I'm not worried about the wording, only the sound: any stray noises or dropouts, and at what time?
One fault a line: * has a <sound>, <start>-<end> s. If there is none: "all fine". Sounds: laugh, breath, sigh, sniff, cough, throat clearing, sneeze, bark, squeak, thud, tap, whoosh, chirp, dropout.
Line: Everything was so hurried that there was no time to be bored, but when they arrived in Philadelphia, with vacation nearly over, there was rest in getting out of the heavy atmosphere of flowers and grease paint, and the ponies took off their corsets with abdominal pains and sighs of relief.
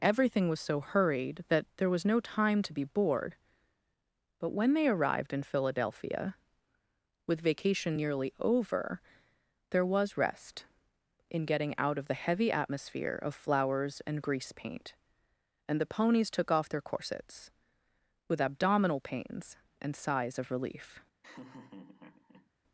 * has a laugh, 21.2-22.5 s